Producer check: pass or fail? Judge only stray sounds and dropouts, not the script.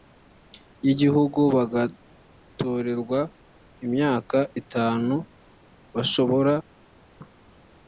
pass